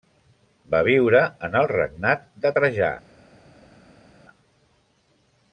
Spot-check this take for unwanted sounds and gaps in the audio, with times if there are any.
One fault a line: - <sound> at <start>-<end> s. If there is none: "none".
none